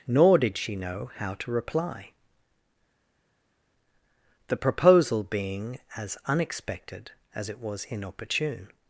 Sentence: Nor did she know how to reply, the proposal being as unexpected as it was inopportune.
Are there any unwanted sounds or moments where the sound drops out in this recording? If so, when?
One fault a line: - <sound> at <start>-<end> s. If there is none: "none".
none